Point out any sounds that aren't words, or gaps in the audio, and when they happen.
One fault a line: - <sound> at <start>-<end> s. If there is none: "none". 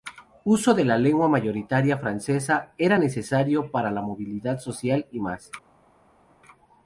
none